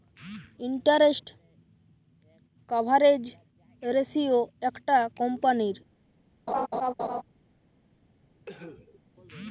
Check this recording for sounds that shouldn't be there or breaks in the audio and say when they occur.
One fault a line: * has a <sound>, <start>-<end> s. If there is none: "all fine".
* has a laugh, 6.5-7.2 s
* has a cough, 8.3-9.0 s